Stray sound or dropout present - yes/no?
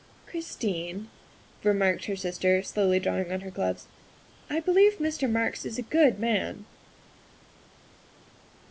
no